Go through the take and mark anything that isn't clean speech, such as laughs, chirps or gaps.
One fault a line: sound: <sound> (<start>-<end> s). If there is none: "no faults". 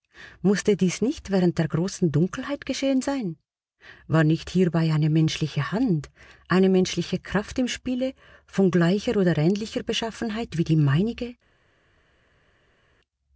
no faults